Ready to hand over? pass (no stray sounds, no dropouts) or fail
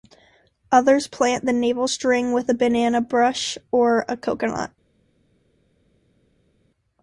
pass